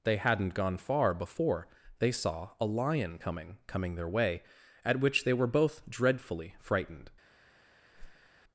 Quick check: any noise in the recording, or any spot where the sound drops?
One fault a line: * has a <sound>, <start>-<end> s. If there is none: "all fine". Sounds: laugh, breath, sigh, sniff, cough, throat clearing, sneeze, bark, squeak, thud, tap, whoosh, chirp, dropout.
* has a whoosh, 7.9-8.3 s